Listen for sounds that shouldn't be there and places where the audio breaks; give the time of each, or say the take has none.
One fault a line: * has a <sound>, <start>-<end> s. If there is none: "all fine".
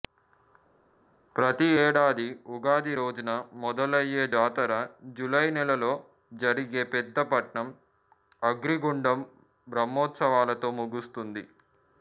all fine